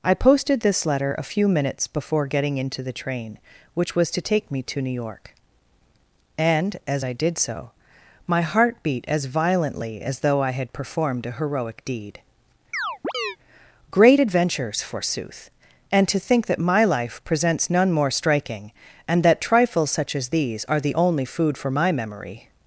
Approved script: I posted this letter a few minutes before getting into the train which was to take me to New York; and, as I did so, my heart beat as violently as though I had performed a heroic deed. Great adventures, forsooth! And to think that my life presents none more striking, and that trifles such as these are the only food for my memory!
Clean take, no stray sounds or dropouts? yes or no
no